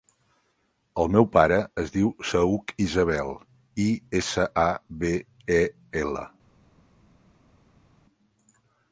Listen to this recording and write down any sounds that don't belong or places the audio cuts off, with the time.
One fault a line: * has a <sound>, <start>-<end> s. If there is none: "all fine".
all fine